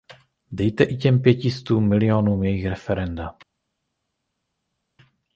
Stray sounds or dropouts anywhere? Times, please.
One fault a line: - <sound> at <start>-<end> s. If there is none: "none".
none